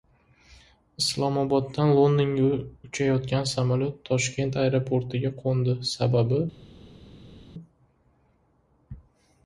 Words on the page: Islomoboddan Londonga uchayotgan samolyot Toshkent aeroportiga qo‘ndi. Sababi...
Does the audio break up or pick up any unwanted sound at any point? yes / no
no